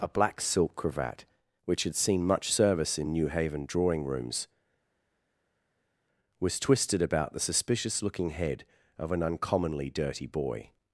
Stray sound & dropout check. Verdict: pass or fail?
pass